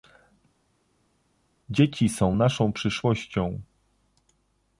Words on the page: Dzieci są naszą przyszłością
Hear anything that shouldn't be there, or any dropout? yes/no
no